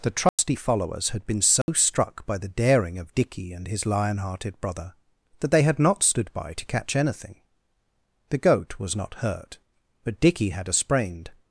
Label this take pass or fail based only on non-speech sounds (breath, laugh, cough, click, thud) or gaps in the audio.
fail